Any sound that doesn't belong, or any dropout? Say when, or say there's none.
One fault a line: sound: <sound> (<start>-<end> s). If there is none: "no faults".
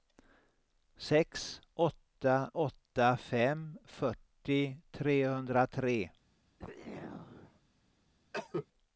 sound: throat clearing (6.6-7.6 s)
sound: cough (8.3-8.7 s)